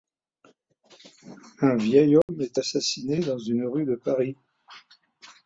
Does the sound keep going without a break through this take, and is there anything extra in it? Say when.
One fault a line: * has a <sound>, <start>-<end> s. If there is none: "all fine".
* has a dropout, 2.2-2.3 s